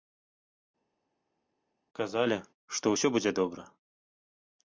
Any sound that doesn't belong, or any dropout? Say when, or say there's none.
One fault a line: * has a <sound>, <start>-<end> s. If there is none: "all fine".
all fine